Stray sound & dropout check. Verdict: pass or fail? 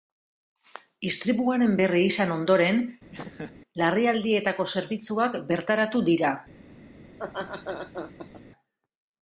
fail